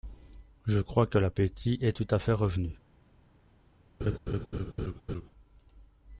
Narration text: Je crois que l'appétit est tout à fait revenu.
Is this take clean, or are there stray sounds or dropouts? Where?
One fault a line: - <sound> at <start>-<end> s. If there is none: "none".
- laugh at 4.0-5.3 s